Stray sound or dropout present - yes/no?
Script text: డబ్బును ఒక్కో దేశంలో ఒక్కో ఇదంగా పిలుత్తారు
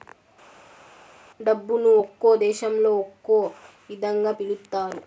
no